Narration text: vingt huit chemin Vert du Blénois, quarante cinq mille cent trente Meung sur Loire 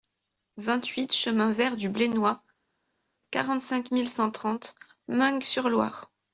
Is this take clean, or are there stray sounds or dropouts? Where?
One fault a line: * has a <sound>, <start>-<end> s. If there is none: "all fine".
all fine